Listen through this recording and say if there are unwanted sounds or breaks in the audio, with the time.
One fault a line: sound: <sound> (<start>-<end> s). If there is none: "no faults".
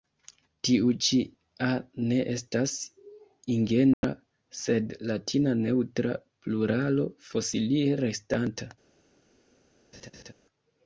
sound: dropout (3.9-4.0 s)
sound: laugh (9.9-10.3 s)